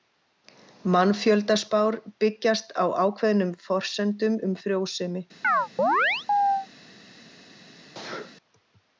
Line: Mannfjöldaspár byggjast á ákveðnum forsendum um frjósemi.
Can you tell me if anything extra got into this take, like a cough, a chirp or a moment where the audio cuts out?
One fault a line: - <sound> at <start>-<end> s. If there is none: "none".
- chirp at 5.4-6.7 s
- sneeze at 7.8-8.4 s